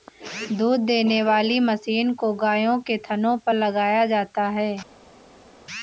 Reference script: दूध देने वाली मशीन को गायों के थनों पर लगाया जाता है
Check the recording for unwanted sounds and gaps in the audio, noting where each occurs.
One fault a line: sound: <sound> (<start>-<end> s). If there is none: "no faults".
no faults